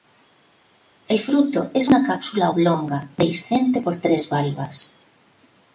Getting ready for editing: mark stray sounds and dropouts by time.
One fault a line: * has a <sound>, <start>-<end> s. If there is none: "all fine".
all fine